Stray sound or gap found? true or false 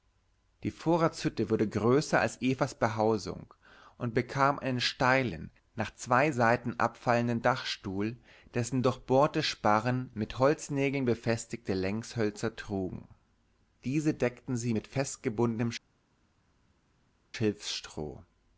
false